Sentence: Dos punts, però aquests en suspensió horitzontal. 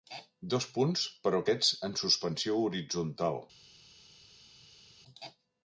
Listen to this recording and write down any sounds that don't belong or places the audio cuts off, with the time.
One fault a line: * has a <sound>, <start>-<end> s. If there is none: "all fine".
all fine